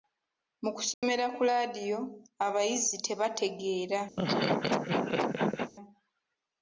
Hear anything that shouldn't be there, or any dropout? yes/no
yes